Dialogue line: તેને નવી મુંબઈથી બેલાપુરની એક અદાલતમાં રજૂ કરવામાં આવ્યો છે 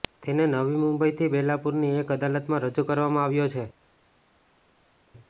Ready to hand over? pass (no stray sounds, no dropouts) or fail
pass